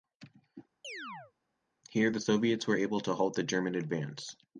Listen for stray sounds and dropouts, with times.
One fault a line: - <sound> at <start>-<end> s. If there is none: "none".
- chirp at 0.8-1.3 s